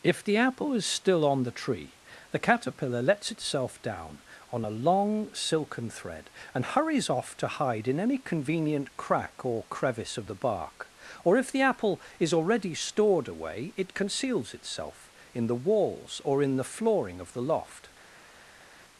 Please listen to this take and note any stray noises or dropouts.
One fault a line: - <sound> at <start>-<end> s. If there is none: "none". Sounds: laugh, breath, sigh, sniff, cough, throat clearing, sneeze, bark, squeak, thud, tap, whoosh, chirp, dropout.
none